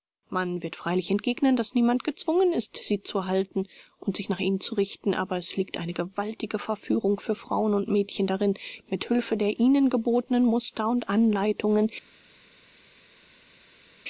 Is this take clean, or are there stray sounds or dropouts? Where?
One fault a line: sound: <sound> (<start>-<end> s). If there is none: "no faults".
no faults